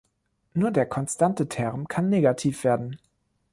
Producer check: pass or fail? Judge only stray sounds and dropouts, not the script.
pass